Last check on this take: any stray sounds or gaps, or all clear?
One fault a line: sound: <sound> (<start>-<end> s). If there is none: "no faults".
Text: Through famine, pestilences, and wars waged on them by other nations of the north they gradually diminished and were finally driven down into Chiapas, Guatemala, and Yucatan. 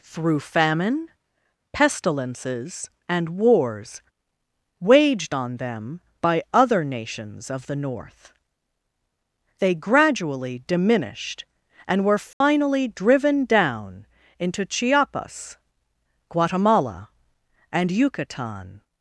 sound: dropout (12.3-12.4 s)